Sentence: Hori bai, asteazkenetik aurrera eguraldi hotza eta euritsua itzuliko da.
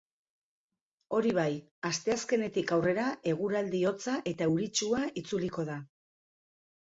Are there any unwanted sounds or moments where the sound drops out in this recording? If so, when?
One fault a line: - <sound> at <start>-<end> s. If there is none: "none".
none